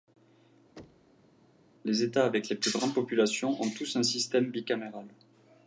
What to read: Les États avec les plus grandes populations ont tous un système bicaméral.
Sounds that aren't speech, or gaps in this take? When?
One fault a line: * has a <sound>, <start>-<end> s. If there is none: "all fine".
* has a thud, 0.8-1.3 s